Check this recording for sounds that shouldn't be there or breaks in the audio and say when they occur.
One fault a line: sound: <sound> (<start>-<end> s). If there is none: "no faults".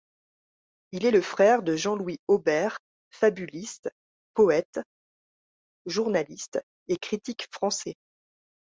no faults